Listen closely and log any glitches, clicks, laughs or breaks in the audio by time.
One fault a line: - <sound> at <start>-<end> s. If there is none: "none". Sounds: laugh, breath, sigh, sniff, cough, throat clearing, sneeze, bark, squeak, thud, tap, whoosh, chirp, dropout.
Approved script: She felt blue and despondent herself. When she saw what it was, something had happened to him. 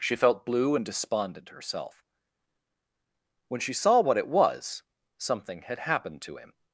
none